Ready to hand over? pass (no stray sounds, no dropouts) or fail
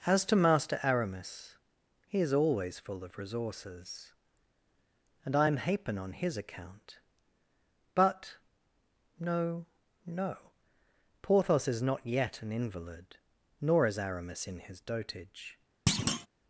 fail